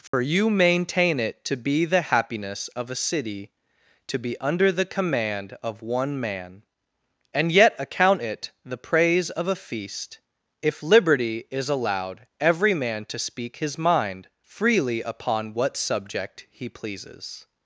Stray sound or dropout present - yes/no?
yes